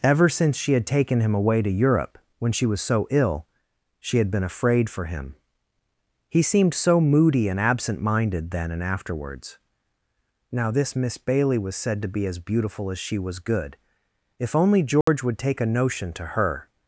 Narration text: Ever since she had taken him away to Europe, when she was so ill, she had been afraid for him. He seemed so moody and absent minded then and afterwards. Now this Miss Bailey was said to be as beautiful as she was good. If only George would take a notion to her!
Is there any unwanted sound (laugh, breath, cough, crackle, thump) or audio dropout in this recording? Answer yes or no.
yes